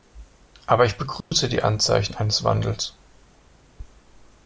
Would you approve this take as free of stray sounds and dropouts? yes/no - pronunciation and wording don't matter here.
no